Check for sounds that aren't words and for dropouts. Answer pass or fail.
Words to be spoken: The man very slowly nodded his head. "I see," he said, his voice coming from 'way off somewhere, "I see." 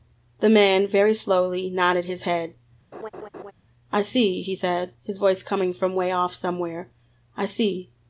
fail